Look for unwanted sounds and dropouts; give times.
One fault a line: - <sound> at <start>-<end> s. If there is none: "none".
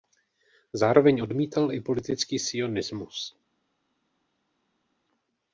none